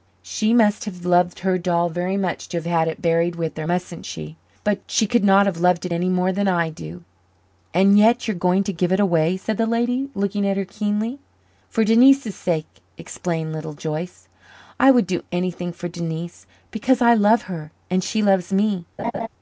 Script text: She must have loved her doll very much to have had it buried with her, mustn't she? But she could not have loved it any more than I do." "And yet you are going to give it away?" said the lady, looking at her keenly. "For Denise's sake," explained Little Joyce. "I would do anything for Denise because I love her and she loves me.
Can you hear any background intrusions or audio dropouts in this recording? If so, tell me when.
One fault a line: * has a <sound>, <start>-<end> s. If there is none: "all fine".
* has a laugh, 19.0-19.3 s